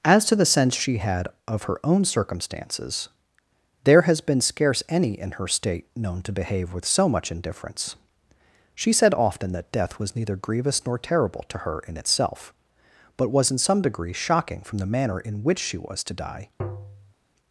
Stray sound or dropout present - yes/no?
yes